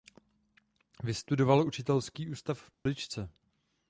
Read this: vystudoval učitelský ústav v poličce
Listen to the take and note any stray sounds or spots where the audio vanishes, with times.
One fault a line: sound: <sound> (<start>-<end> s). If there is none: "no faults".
sound: dropout (2.7-2.9 s)